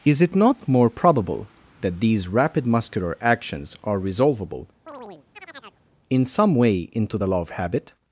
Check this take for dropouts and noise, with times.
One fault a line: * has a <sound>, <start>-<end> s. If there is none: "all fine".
* has a chirp, 4.9-5.8 s